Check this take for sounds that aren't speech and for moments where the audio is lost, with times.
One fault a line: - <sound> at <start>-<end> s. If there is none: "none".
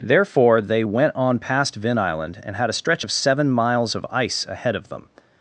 none